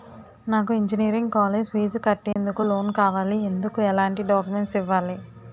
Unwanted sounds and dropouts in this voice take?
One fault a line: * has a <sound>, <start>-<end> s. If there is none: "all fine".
* has a dropout, 2.3-2.4 s